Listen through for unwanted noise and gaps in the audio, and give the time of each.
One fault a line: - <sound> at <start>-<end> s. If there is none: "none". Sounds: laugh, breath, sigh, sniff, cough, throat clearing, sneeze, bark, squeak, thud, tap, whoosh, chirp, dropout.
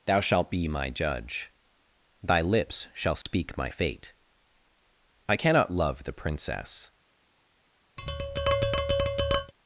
- dropout at 3.2-3.3 s
- tap at 8.0-9.5 s